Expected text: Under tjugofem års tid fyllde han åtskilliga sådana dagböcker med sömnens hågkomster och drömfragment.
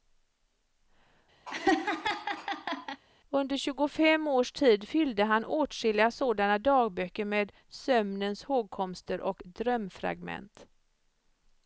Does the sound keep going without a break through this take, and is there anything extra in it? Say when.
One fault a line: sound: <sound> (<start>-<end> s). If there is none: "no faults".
sound: laugh (1.5-3.0 s)